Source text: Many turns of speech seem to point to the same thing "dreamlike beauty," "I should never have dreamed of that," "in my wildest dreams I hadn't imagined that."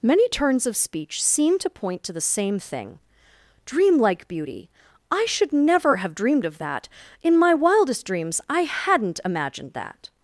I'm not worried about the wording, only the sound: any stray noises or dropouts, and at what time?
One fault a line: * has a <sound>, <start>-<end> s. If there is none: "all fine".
all fine